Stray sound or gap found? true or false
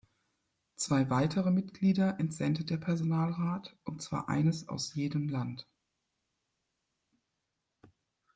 false